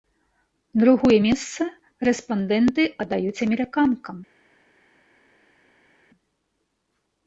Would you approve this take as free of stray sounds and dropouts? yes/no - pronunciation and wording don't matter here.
yes